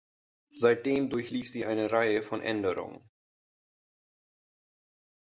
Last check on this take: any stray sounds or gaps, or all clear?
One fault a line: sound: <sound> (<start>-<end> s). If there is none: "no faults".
no faults